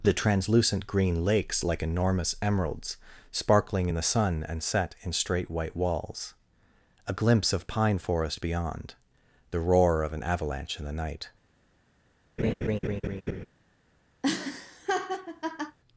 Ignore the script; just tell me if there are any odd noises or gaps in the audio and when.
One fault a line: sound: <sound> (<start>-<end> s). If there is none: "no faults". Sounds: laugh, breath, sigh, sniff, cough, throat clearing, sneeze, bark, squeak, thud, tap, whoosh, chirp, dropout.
sound: laugh (12.4-13.5 s)
sound: laugh (14.2-15.8 s)